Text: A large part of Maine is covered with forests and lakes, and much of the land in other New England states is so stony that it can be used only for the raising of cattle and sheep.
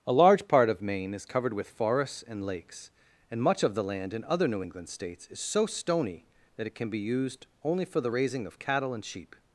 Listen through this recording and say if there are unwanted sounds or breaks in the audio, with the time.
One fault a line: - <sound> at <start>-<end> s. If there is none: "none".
none